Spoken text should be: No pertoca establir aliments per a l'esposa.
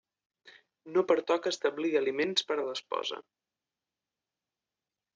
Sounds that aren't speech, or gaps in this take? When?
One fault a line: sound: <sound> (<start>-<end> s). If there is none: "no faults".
no faults